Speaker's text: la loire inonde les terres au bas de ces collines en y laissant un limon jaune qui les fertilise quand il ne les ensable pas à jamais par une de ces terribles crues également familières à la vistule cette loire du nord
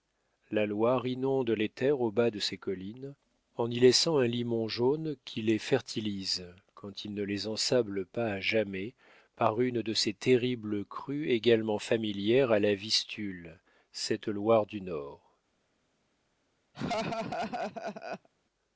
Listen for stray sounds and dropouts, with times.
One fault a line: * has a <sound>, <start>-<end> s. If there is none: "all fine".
* has a laugh, 16.7-18.3 s